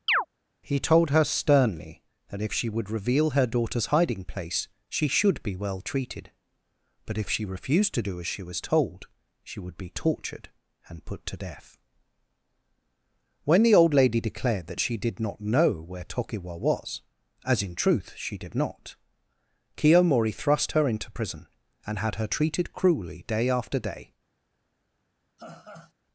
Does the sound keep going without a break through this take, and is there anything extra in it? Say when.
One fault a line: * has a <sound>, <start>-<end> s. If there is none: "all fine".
* has a chirp, 0.1-0.3 s
* has a laugh, 25.4-25.9 s